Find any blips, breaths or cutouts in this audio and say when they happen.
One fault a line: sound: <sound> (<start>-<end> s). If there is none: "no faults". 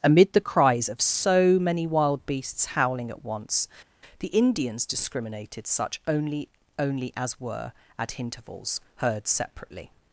no faults